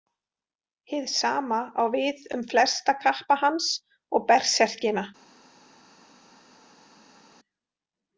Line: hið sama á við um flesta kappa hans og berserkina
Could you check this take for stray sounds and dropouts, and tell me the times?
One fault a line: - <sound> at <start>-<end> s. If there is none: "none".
none